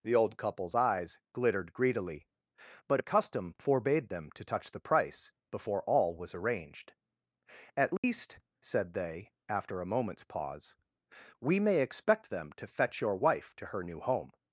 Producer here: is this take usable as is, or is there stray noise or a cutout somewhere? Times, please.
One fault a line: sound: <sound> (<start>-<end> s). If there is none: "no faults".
sound: dropout (8.0-8.0 s)